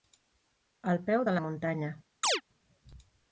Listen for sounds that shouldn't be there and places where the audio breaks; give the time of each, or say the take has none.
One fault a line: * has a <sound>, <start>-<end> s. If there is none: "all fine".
* has a chirp, 2.2-2.4 s